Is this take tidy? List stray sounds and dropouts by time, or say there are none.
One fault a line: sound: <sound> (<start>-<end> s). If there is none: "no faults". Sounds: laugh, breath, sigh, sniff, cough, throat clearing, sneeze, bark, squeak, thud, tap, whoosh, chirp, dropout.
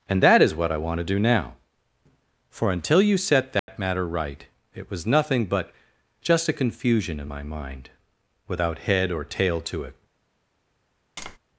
sound: dropout (3.6-3.7 s)
sound: tap (11.2-11.4 s)